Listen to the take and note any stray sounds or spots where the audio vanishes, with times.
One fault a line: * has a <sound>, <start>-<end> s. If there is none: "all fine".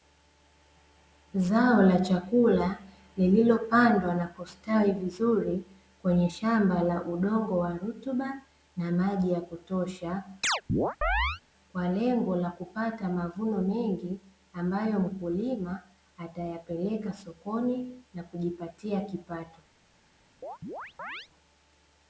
* has a chirp, 10.4-11.4 s
* has a chirp, 20.4-21.3 s